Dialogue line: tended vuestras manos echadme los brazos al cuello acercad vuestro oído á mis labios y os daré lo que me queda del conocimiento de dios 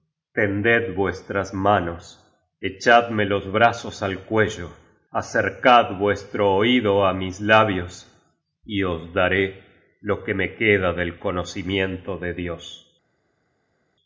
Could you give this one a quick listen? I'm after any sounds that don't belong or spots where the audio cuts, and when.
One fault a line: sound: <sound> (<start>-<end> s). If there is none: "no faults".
no faults